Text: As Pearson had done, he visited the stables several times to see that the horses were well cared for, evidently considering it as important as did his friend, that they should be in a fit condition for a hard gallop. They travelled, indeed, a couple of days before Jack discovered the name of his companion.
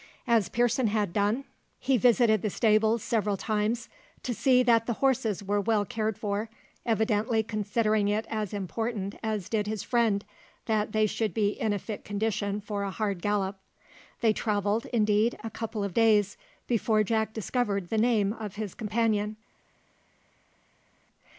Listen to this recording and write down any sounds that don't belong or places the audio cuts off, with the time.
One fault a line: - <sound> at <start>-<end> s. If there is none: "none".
none